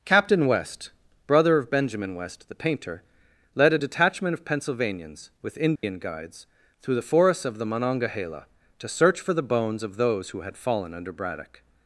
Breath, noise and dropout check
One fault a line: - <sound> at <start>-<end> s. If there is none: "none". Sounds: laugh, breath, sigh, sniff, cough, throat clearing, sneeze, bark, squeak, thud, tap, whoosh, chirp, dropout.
- dropout at 5.8-5.8 s